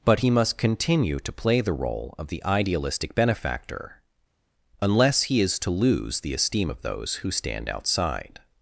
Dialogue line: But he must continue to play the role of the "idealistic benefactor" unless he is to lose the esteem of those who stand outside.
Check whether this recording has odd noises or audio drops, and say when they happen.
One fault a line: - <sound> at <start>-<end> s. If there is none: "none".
none